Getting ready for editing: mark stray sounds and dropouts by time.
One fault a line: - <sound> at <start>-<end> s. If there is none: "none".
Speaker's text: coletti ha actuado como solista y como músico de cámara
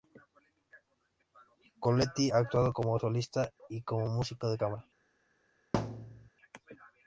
- thud at 5.7-6.3 s